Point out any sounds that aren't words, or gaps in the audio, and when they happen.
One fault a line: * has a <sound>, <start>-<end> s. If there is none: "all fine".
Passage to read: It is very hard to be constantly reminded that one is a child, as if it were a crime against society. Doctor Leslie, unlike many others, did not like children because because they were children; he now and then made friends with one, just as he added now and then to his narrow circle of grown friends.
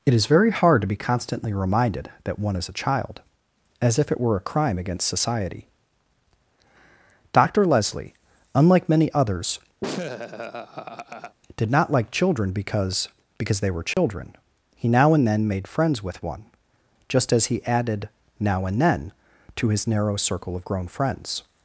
* has a laugh, 9.8-11.4 s
* has a dropout, 13.9-14.0 s